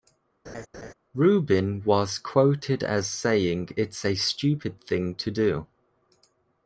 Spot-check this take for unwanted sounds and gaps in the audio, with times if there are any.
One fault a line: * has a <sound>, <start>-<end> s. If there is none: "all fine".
* has a laugh, 0.4-0.9 s